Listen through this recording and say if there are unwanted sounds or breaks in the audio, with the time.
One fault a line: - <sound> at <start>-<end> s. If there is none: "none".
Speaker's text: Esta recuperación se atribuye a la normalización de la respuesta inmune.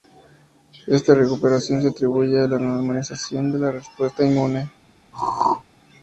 - throat clearing at 5.1-5.6 s